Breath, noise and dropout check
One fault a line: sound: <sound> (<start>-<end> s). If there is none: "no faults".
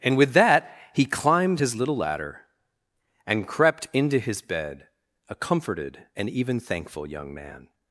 no faults